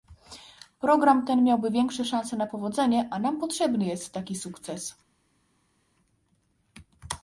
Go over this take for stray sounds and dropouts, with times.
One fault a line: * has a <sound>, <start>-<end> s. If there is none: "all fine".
all fine